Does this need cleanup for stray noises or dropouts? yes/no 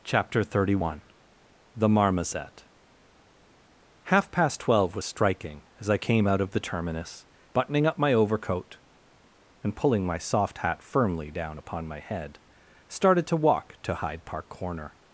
no